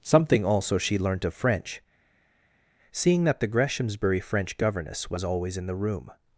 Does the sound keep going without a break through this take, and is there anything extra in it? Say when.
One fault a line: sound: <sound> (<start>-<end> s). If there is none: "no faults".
no faults